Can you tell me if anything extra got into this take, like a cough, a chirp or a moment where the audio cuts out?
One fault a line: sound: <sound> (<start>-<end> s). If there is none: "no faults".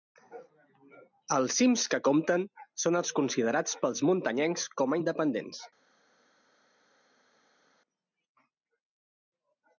no faults